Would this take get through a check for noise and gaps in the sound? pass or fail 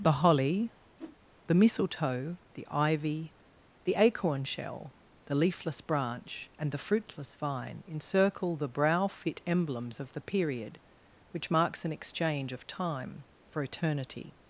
fail